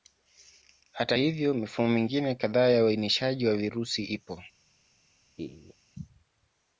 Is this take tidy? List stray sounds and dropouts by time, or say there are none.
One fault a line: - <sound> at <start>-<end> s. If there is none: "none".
- laugh at 5.4-5.7 s